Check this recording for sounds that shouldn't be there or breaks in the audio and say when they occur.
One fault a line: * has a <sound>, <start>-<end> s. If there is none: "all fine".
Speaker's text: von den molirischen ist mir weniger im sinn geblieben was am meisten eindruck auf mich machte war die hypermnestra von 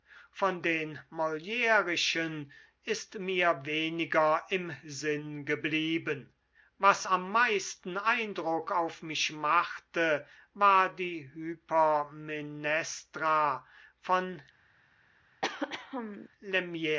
* has a throat clearing, 15.4-16.3 s